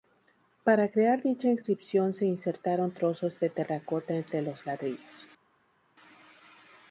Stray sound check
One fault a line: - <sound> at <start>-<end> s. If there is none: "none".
none